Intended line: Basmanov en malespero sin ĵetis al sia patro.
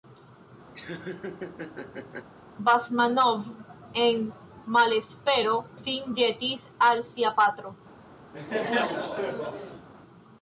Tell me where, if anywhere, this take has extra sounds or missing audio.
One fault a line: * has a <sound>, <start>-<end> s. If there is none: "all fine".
* has a laugh, 0.7-2.3 s
* has a laugh, 8.3-9.9 s